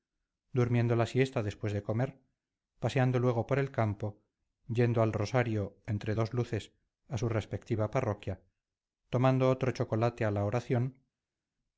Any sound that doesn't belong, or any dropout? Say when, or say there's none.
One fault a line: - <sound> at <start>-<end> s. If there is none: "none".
none